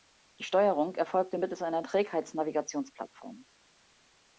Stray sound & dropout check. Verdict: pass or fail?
pass